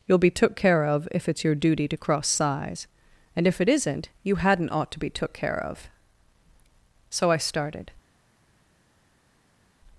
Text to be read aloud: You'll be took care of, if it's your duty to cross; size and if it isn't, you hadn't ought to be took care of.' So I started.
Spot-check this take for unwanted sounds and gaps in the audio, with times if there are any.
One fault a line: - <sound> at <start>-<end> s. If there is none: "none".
none